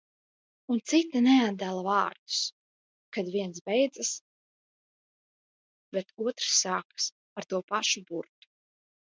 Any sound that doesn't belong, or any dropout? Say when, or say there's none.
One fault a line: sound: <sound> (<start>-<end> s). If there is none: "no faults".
no faults